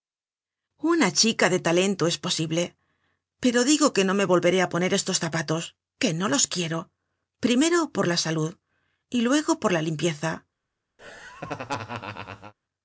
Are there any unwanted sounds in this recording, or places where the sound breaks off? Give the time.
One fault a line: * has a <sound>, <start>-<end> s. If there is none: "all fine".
* has a laugh, 11.0-12.5 s